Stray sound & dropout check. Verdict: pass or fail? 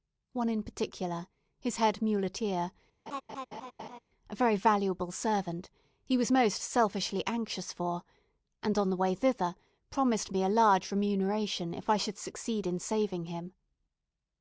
fail